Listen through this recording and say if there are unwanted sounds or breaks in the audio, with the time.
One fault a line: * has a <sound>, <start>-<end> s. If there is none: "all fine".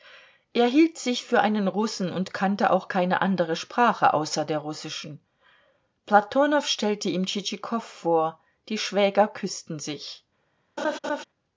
* has a laugh, 10.8-11.2 s